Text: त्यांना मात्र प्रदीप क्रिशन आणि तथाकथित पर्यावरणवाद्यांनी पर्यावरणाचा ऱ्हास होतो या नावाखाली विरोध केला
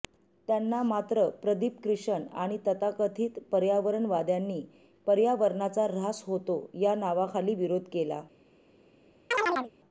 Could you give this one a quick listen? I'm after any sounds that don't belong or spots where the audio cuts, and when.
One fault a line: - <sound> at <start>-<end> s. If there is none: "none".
- chirp at 9.3-9.7 s